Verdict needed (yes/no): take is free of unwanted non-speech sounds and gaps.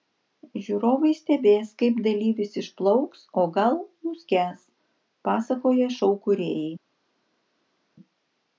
yes